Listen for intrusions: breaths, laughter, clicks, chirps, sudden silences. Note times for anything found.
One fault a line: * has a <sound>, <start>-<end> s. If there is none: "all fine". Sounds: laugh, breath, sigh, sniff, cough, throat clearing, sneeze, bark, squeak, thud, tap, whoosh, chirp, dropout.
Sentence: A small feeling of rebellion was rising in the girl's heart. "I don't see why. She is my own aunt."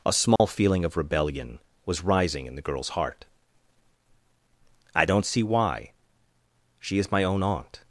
* has a dropout, 0.4-0.4 s